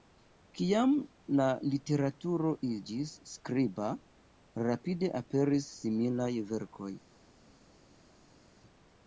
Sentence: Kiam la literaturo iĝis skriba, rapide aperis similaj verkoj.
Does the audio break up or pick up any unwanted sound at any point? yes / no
no